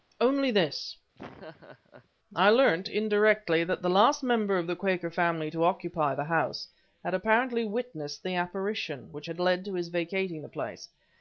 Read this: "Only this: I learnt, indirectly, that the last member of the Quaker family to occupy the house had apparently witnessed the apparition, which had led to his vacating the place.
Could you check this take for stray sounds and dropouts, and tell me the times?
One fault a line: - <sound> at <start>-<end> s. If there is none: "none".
- laugh at 1.1-2.1 s